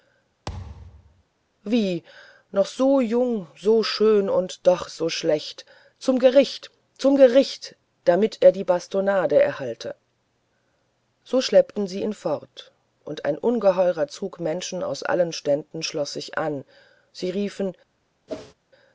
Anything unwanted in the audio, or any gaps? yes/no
yes